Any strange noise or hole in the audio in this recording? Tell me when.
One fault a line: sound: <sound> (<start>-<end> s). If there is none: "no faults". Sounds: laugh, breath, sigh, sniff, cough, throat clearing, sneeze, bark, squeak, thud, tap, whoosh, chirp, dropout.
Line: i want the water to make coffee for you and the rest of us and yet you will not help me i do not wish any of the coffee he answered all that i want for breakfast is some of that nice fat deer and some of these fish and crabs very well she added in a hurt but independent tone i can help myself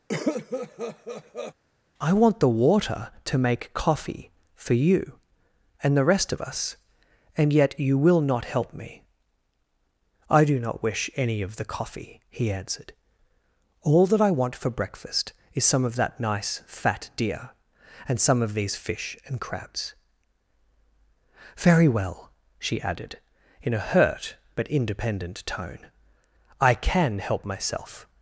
sound: cough (0.1-1.5 s)